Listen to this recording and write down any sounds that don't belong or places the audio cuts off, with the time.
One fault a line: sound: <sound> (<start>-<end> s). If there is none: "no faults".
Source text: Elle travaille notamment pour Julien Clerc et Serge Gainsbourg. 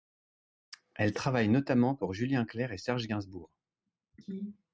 no faults